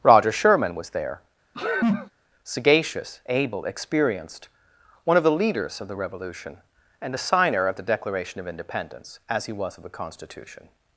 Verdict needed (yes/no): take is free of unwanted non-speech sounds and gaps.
no